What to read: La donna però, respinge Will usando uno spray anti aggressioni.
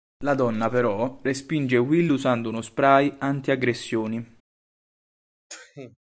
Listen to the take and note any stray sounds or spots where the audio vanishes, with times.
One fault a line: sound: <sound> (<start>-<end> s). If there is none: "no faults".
sound: sneeze (5.5-6.0 s)